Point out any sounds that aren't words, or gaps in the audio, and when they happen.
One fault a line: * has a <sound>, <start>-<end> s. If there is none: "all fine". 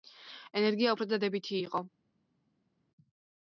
all fine